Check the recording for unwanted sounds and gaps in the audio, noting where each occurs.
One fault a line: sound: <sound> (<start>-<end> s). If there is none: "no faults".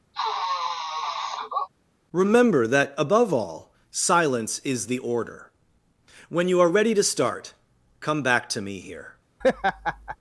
sound: sniff (0.1-1.7 s)
sound: laugh (9.4-10.2 s)